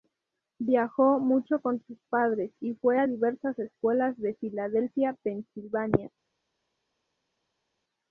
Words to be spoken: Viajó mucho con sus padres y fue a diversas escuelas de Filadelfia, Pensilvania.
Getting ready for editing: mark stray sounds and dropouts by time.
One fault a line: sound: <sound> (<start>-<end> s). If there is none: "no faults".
no faults